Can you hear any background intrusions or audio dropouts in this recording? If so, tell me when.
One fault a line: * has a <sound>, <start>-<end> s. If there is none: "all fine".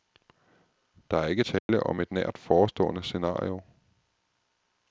* has a dropout, 1.6-1.7 s